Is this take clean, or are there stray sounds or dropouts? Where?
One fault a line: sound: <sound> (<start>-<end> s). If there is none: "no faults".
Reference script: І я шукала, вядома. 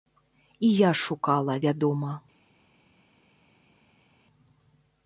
no faults